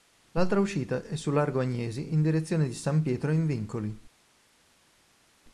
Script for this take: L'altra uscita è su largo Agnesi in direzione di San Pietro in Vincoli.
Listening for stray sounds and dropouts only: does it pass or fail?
pass